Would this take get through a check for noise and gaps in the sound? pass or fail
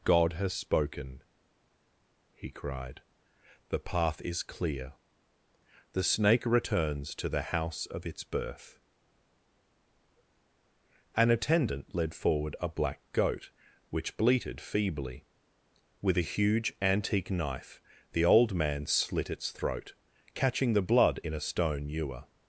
pass